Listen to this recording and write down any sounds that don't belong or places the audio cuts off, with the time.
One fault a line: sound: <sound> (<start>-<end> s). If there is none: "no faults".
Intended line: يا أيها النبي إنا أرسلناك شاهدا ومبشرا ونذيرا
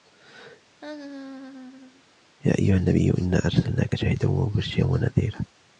sound: laugh (0.8-2.0 s)